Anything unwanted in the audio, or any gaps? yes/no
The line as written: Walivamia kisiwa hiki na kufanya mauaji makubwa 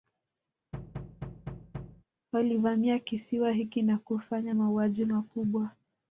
yes